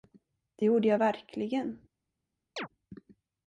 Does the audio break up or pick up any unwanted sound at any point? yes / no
yes